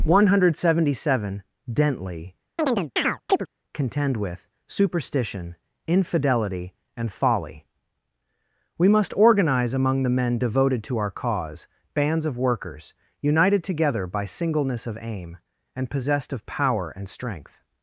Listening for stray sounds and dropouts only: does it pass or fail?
fail